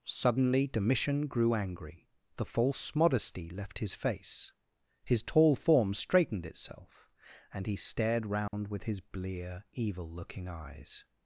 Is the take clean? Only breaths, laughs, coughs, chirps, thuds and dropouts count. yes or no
no